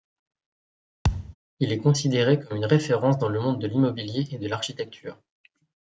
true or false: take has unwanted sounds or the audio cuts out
true